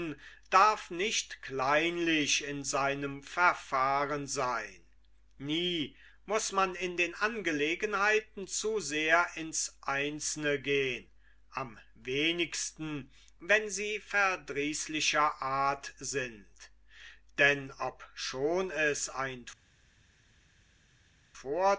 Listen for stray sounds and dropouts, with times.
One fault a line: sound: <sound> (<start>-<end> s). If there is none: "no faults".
no faults